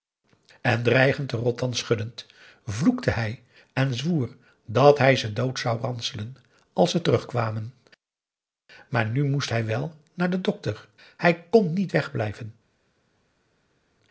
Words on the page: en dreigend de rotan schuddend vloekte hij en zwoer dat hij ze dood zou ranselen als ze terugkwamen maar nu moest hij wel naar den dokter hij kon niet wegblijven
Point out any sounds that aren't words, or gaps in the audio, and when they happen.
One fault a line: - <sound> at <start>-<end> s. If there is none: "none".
none